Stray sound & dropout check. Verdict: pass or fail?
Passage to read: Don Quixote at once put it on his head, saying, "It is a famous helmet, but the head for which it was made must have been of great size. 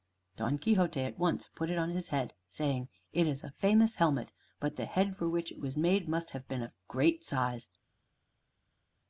pass